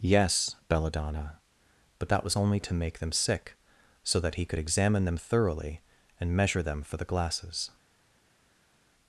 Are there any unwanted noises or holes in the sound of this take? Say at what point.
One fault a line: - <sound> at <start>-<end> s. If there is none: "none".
none